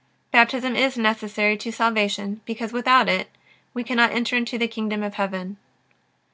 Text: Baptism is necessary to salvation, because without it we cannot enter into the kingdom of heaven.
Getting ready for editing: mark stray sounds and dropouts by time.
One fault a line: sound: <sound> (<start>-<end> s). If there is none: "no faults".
no faults